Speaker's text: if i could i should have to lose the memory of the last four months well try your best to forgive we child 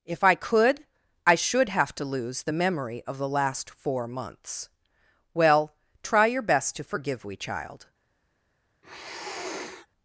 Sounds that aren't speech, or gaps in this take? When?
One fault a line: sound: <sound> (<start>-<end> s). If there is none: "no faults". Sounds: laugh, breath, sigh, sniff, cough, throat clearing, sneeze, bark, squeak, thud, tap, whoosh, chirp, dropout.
sound: sniff (8.8-9.9 s)